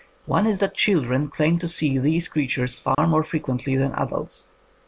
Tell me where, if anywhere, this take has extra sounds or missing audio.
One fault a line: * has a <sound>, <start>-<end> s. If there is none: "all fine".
* has a dropout, 2.9-3.0 s